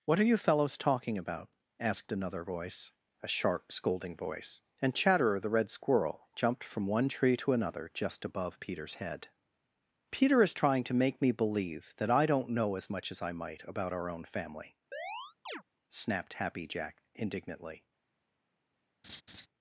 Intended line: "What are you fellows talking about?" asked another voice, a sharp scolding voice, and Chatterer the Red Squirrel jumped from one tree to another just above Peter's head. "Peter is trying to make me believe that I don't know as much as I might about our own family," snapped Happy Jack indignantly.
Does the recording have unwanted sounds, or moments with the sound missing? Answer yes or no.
yes